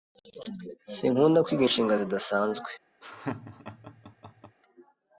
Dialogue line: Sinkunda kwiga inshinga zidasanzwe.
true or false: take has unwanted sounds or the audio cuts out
true